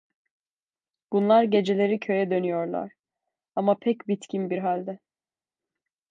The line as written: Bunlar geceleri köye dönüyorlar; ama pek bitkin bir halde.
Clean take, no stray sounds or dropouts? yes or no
yes